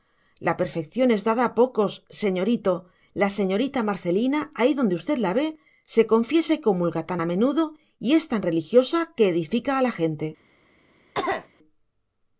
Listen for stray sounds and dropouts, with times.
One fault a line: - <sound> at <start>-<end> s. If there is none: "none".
- cough at 11.1-11.5 s